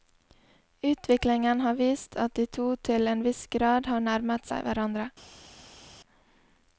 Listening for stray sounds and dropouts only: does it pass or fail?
pass